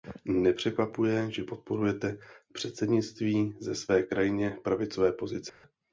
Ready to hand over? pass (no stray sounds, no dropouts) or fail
fail